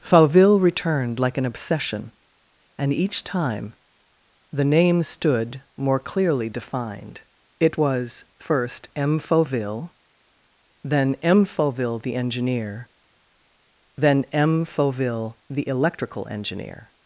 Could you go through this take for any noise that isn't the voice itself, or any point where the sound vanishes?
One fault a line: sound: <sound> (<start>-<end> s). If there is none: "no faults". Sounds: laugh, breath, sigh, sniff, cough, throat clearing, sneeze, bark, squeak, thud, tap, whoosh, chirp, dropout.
no faults